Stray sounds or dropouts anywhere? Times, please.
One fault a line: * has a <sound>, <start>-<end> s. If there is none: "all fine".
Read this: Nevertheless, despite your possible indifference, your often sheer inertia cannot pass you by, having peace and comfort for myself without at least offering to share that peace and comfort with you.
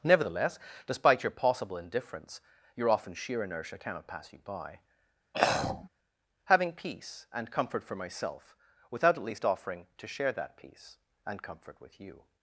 * has a throat clearing, 5.3-5.9 s